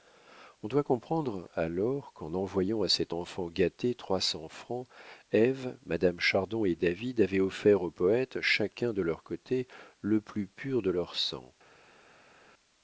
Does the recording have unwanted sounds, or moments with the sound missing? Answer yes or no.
no